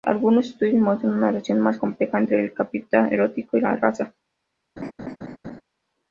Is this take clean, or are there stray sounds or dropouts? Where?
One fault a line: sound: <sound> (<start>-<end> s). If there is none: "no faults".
sound: laugh (4.8-5.6 s)